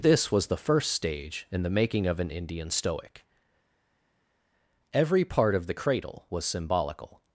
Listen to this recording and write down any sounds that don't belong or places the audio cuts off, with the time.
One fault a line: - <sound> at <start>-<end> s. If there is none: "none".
none